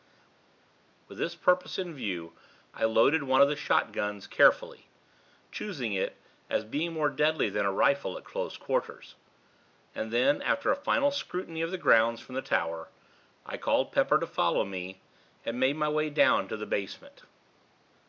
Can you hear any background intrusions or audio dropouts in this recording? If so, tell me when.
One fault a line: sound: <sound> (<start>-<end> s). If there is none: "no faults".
no faults